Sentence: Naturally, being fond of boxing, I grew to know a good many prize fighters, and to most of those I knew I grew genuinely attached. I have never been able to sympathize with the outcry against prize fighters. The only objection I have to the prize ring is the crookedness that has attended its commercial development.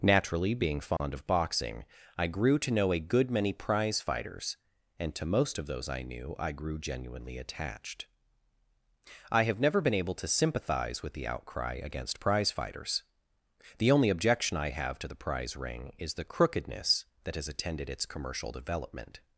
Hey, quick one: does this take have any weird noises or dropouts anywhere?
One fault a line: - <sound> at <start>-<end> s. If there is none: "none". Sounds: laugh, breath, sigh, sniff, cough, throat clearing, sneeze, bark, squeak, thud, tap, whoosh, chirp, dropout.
- dropout at 1.0-1.0 s